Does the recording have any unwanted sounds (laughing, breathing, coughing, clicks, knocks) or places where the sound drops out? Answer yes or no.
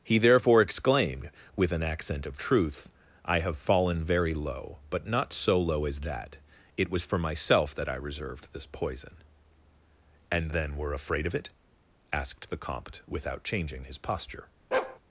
yes